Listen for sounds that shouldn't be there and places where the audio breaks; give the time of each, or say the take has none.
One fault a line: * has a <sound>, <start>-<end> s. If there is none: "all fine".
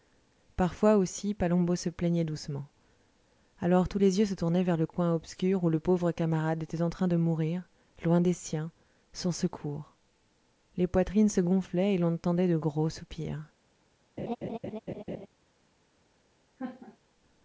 * has a laugh, 14.2-15.3 s
* has a laugh, 16.6-17.0 s